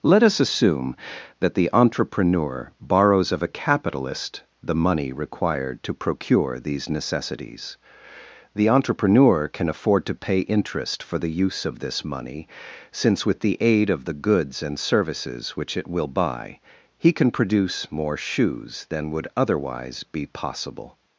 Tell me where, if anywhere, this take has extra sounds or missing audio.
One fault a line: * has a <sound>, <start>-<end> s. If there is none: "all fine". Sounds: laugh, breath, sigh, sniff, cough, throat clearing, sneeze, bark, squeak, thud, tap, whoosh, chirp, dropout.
all fine